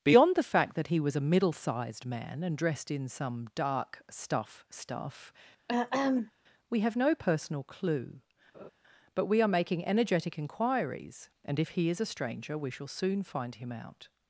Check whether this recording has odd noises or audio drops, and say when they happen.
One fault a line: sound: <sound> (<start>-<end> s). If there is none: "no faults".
sound: throat clearing (5.7-6.3 s)
sound: laugh (8.5-8.7 s)